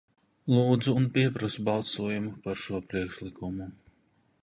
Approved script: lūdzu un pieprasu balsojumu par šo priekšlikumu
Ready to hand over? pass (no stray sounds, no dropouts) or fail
pass